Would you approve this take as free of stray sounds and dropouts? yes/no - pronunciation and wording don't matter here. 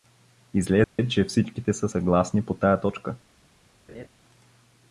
no